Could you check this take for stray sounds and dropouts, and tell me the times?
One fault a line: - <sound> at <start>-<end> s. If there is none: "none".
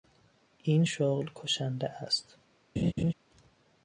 - laugh at 2.8-3.1 s